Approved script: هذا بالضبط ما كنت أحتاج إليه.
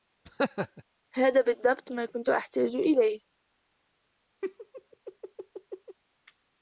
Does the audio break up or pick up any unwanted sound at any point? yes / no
yes